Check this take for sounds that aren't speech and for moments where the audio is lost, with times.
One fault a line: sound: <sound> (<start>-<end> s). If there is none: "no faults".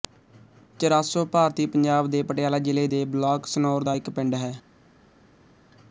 no faults